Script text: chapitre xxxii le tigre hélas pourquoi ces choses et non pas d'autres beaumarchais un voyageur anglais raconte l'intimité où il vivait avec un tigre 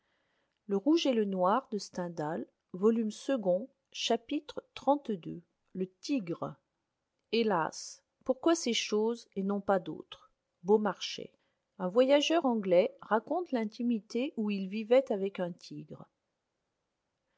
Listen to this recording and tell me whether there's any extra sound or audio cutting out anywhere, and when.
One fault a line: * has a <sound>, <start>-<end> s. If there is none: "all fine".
all fine